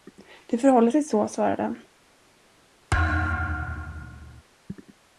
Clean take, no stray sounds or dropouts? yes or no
no